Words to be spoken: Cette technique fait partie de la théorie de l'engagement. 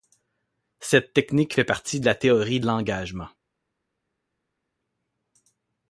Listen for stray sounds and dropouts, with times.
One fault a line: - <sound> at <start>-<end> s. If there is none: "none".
none